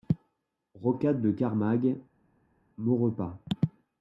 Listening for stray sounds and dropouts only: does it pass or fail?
pass